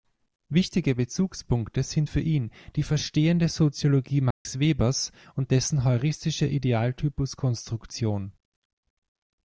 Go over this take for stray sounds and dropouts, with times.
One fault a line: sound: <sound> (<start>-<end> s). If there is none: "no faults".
sound: dropout (4.3-4.5 s)